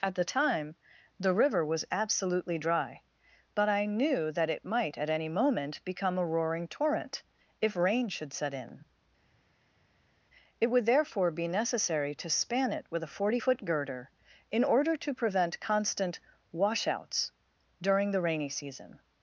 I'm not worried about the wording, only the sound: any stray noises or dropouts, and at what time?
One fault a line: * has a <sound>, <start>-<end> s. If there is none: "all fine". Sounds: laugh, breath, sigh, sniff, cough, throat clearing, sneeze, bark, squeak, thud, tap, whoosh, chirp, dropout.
all fine